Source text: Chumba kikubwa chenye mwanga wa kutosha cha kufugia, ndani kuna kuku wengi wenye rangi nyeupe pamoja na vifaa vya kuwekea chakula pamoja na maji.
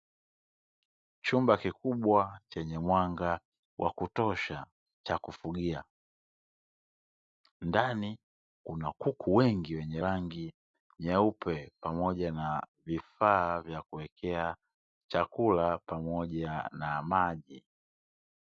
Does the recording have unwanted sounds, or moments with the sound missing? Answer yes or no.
no